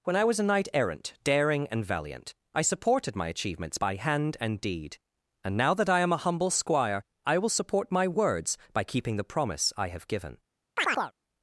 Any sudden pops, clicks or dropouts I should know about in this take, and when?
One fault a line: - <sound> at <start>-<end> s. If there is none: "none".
- chirp at 10.8-11.1 s